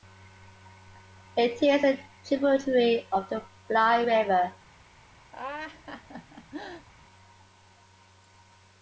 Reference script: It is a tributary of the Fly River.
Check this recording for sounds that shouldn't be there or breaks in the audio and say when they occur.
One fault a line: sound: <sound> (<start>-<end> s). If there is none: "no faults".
sound: laugh (5.3-6.9 s)